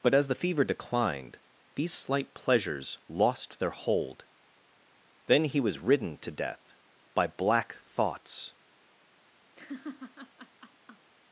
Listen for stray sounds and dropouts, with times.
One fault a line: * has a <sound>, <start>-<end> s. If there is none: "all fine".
* has a laugh, 9.5-11.1 s